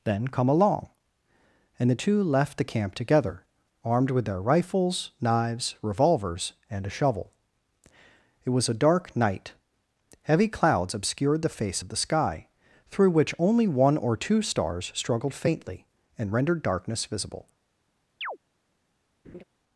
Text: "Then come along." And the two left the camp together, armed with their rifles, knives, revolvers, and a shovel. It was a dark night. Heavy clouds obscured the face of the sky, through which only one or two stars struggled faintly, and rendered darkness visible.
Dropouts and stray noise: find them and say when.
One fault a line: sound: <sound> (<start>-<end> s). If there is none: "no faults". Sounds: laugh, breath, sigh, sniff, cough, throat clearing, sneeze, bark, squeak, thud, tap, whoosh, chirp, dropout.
sound: chirp (18.2-18.4 s)
sound: laugh (19.2-19.4 s)